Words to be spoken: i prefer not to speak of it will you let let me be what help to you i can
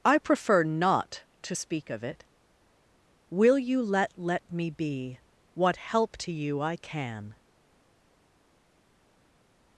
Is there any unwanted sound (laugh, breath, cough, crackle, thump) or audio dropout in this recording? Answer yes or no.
no